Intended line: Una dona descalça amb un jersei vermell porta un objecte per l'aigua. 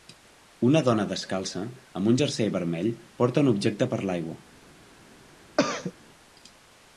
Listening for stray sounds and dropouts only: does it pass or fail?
fail